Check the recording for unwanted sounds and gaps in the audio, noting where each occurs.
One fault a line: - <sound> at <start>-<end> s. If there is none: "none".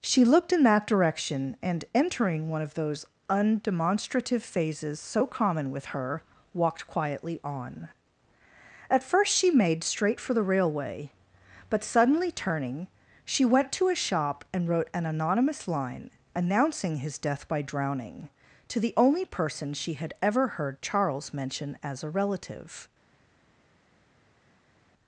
none